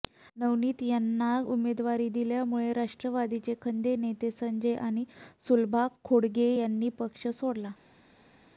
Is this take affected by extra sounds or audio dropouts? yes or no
no